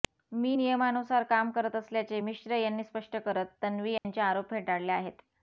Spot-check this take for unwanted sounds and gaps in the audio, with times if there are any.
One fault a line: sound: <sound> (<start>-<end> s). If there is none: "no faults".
sound: dropout (4.0-4.0 s)